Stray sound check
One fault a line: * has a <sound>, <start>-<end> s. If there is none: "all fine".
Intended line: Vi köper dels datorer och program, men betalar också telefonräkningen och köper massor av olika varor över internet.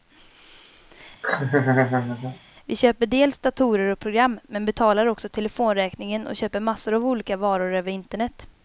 * has a laugh, 1.2-2.4 s